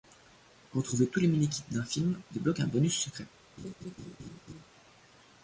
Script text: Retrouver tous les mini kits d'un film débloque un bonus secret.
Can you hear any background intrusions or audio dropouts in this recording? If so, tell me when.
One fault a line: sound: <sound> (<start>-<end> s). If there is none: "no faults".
sound: laugh (3.6-4.7 s)